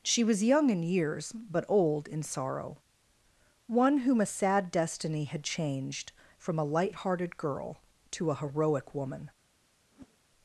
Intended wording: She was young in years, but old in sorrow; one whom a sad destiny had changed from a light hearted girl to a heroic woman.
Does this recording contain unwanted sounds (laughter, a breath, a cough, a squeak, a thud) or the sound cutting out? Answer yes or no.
yes